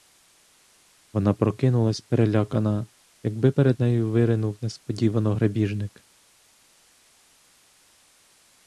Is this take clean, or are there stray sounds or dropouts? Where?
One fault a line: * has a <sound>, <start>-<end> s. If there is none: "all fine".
all fine